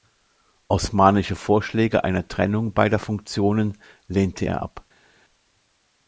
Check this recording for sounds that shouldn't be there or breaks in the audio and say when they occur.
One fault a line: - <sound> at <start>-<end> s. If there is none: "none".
none